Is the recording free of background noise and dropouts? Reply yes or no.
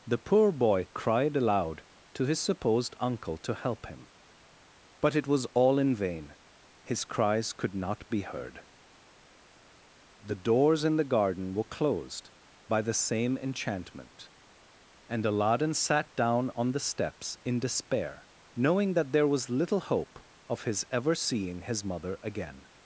yes